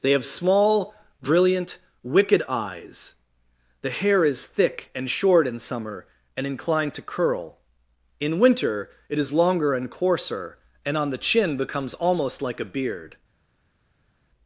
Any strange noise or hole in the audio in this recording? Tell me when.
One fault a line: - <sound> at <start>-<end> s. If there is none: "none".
none